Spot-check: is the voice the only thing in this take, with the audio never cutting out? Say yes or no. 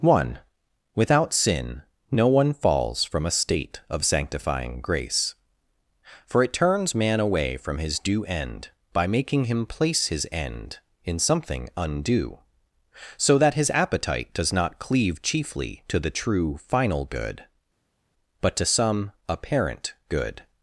yes